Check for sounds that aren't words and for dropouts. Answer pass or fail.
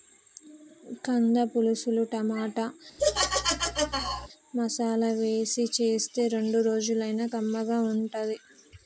fail